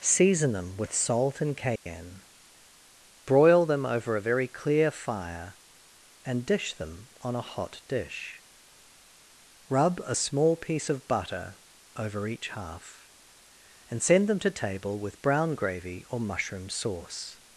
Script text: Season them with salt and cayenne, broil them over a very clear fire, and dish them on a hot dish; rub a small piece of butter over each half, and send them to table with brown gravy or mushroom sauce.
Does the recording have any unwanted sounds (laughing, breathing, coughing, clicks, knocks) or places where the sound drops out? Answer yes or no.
yes